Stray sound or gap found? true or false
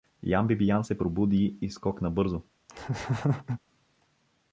true